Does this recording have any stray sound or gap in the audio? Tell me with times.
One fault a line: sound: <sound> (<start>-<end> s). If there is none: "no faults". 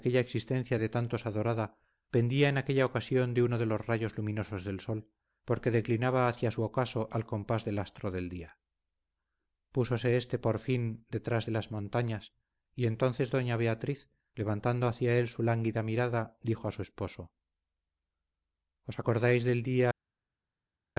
no faults